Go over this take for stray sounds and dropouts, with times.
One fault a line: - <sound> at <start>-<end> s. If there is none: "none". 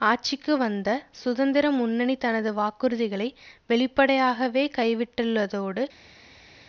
none